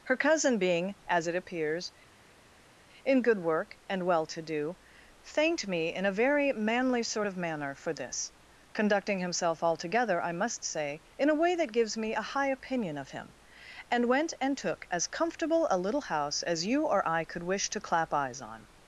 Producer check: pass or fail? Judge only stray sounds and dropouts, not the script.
pass